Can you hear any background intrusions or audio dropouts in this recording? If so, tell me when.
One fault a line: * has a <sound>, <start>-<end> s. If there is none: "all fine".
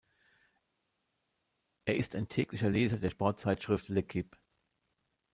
all fine